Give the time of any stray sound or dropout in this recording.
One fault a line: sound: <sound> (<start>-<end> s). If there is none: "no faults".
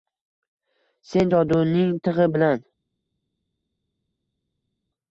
no faults